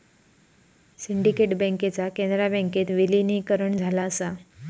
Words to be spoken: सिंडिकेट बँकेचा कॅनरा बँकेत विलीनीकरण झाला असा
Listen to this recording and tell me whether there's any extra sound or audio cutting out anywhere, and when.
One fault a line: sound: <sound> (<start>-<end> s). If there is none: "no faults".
no faults